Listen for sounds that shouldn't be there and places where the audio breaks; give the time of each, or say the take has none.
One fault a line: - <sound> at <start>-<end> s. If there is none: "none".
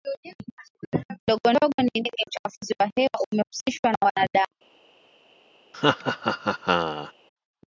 - laugh at 5.7-7.1 s